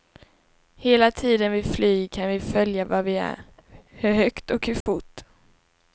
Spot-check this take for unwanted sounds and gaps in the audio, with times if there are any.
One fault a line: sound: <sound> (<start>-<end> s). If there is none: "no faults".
sound: dropout (4.8-4.9 s)